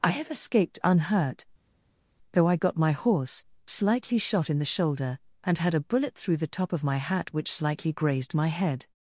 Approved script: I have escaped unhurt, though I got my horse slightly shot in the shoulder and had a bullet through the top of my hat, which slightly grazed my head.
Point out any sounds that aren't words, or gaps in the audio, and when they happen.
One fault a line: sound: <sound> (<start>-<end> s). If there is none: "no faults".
no faults